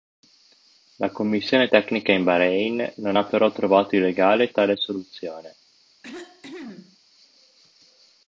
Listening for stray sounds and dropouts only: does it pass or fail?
fail